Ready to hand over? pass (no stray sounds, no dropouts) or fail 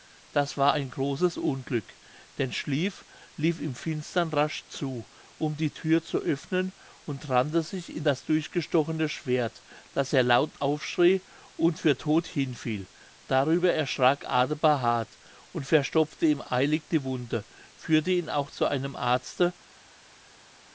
pass